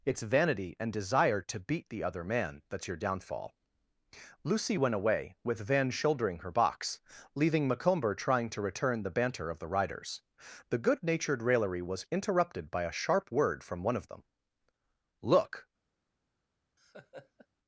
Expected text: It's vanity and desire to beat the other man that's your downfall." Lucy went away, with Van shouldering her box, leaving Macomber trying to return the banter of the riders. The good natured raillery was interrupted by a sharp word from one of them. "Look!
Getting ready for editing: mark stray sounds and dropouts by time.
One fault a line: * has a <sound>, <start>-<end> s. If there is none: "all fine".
* has a laugh, 16.8-17.5 s